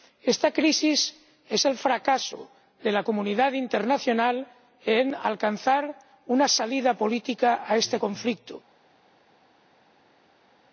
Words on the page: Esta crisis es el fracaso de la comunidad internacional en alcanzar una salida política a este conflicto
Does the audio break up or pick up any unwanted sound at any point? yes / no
no